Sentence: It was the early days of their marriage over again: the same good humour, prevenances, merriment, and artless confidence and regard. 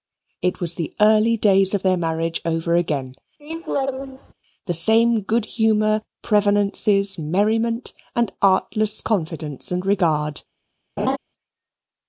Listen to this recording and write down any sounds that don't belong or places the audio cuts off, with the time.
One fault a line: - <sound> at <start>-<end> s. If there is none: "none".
- laugh at 3.4-4.3 s
- laugh at 11.0-11.2 s